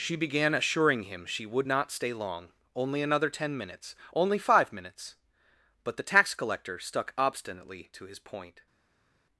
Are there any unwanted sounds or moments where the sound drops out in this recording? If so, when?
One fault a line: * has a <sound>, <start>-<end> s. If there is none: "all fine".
all fine